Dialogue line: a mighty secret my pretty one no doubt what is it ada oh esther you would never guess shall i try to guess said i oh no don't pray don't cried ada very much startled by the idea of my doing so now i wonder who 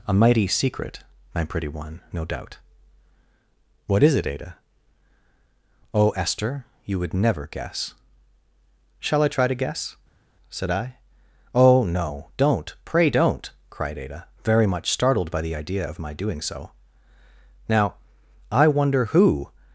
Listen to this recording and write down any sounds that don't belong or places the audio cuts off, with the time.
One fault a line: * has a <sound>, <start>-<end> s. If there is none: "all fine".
all fine